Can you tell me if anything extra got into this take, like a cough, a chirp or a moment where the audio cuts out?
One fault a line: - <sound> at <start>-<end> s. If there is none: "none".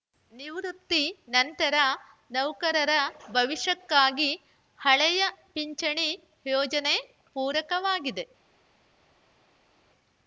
none